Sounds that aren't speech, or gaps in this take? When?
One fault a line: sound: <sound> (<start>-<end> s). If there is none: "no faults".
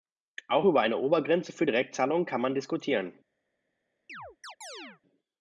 sound: chirp (4.1-5.0 s)